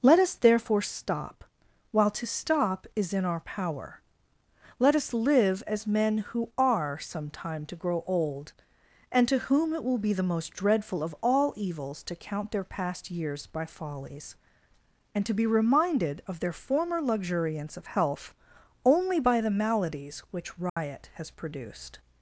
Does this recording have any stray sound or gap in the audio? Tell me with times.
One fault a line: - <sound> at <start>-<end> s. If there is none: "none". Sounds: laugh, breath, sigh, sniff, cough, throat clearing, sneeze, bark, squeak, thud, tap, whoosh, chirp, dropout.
- dropout at 20.7-20.8 s